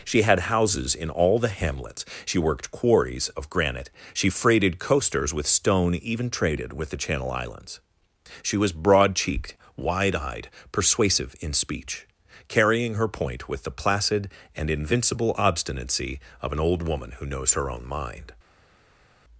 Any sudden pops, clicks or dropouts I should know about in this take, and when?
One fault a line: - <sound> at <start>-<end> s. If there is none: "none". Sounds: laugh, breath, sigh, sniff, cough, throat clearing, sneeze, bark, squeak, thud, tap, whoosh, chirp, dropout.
none